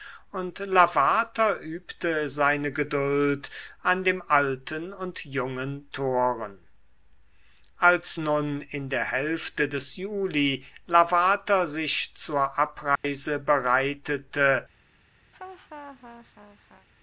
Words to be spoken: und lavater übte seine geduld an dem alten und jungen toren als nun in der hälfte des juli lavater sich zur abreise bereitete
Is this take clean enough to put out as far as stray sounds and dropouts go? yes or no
no